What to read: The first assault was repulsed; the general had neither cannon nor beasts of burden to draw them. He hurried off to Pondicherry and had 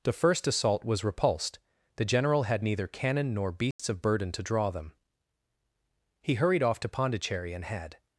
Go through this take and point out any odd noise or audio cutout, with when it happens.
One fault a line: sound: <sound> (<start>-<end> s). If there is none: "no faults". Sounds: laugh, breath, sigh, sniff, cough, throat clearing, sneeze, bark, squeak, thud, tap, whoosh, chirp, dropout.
sound: dropout (3.7-3.8 s)